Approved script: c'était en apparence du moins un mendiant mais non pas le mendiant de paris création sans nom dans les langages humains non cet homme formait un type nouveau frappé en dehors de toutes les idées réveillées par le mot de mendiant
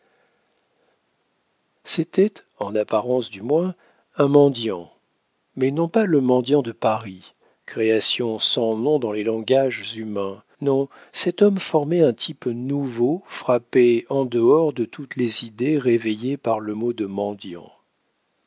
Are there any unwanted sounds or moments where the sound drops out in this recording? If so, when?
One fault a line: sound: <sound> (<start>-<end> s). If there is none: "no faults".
no faults